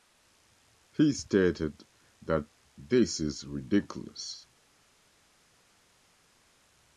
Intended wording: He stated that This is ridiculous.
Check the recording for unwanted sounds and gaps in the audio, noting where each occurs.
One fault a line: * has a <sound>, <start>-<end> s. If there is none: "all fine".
all fine